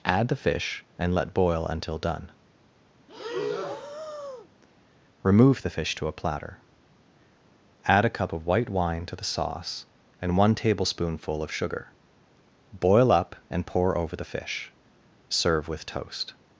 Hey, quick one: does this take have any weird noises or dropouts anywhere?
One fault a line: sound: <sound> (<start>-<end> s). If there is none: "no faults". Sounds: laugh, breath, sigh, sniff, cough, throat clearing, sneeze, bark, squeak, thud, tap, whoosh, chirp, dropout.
sound: breath (3.1-4.5 s)